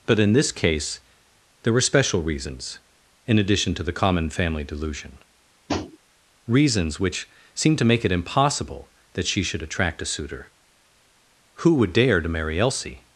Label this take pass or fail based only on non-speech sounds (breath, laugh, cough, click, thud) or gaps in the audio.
fail